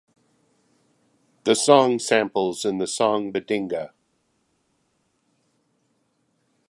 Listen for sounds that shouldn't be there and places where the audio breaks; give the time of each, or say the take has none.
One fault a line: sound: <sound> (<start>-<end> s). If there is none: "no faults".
no faults